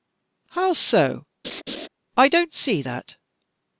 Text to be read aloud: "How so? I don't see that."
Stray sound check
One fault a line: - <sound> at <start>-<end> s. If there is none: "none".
- laugh at 1.4-1.9 s